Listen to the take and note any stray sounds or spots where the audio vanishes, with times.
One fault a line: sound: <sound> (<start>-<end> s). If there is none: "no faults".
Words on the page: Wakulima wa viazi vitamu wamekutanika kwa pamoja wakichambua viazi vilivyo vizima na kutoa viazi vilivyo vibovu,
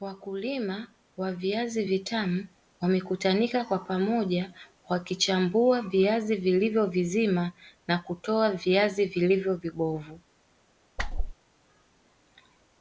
sound: whoosh (11.0-11.3 s)